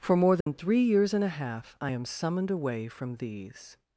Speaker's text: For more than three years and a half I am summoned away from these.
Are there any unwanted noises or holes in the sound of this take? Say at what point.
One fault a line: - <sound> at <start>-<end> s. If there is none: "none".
- dropout at 0.4-0.5 s